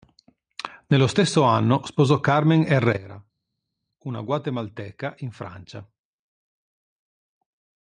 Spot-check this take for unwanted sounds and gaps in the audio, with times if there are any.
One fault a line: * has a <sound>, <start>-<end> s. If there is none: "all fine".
all fine